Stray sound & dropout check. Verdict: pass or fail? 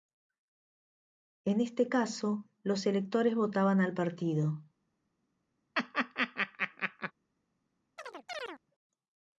fail